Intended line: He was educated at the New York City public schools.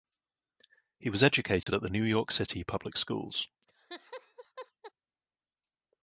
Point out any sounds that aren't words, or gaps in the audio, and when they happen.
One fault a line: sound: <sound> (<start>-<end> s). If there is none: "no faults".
sound: dropout (1.6-1.7 s)
sound: laugh (3.6-4.9 s)